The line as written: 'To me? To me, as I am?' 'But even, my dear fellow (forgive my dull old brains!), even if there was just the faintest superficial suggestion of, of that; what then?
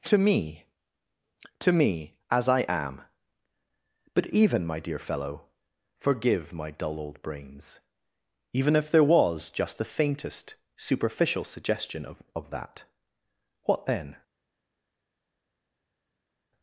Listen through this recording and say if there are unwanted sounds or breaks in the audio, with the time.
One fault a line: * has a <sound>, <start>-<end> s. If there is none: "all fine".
all fine